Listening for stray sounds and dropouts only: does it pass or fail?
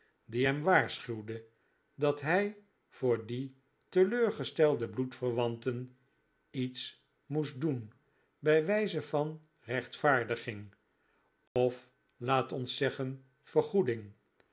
fail